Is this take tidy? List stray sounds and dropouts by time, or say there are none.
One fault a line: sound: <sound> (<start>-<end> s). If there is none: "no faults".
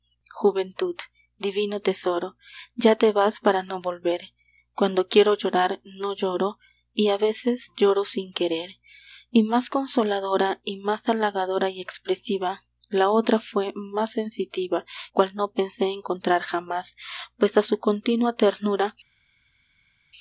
no faults